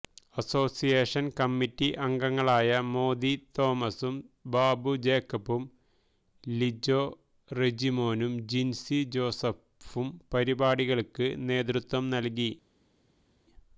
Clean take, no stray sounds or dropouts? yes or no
yes